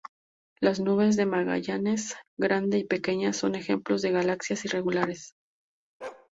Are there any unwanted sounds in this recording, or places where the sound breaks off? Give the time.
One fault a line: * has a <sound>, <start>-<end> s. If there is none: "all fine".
* has a bark, 6.0-6.3 s